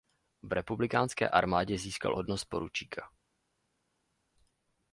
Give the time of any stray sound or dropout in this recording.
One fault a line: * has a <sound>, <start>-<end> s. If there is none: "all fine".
all fine